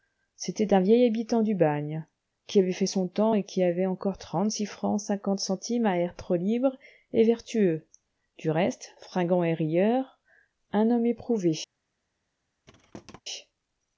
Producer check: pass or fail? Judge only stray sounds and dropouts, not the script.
fail